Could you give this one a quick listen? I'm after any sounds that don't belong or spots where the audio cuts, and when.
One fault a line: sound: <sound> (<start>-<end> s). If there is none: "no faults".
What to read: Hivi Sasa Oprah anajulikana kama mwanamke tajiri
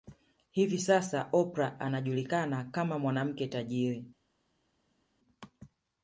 no faults